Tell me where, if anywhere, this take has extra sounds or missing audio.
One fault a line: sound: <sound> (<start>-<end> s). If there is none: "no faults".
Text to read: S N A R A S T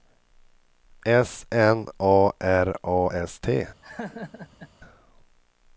sound: laugh (3.8-4.7 s)